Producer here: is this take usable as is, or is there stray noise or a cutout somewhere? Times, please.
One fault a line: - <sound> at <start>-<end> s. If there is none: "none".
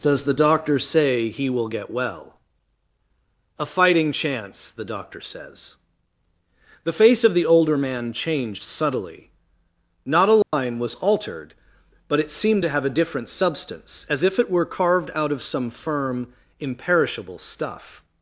- dropout at 10.4-10.5 s